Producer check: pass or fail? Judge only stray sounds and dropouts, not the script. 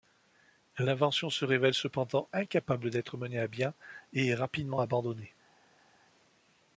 pass